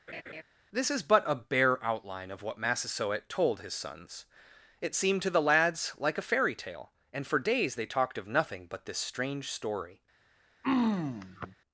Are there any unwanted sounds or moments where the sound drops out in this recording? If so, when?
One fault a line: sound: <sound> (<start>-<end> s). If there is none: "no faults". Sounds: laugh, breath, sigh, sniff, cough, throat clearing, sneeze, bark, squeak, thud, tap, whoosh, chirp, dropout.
sound: laugh (0.1-0.4 s)
sound: throat clearing (10.6-11.6 s)